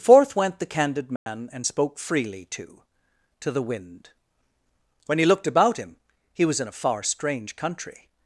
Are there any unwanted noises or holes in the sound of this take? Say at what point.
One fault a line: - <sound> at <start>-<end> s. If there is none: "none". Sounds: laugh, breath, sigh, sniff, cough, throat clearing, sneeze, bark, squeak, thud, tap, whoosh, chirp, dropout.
- dropout at 1.2-1.3 s